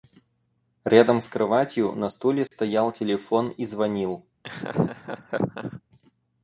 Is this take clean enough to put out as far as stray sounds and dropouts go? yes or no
no